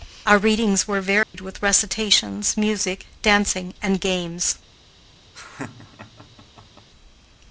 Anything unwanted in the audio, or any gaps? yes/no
yes